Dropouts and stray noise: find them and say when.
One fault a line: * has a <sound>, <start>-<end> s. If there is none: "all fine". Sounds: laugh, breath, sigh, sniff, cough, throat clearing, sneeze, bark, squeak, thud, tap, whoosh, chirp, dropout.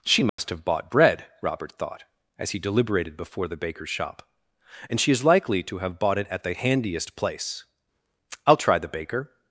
* has a dropout, 0.3-0.4 s